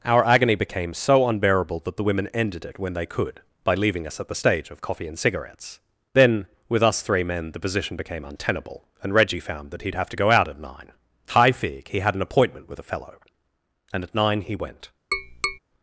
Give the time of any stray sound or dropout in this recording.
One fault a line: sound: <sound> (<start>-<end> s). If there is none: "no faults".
sound: tap (15.1-15.6 s)